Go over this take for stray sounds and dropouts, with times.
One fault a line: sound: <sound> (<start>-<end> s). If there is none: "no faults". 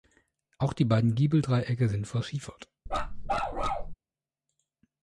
sound: bark (2.9-3.9 s)